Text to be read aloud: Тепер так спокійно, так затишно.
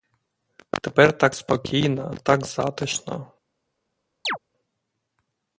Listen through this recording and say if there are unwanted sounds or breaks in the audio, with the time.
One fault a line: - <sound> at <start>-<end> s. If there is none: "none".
- chirp at 4.2-4.4 s